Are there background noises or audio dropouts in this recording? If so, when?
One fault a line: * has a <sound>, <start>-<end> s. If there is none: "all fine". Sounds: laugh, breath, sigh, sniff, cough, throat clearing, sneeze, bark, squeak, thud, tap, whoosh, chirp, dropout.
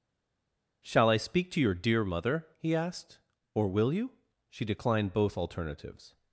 all fine